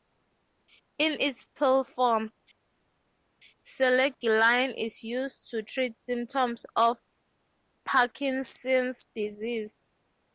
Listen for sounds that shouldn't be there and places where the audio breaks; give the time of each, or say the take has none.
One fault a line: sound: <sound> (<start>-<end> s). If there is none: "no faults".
no faults